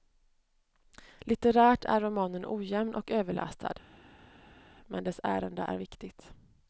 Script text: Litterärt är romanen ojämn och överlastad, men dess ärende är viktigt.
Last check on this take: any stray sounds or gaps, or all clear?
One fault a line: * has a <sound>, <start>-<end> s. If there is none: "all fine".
all fine